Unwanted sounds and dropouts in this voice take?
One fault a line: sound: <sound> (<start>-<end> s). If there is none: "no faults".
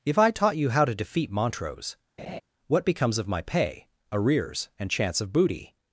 sound: laugh (2.2-2.4 s)